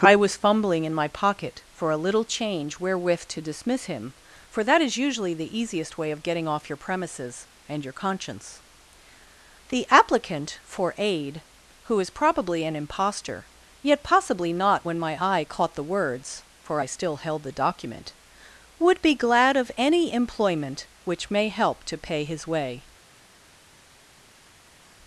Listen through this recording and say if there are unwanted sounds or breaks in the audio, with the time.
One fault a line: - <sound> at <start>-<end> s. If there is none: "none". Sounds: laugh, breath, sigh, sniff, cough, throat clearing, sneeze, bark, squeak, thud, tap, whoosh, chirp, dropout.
none